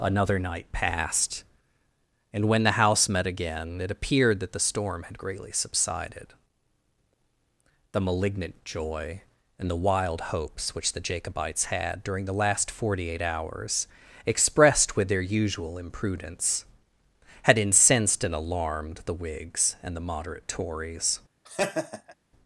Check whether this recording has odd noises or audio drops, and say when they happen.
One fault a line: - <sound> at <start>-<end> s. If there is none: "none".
- laugh at 21.5-22.2 s